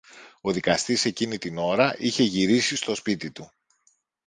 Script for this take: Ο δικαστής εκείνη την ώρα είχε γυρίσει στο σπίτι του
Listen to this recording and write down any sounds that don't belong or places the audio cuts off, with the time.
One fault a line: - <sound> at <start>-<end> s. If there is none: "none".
none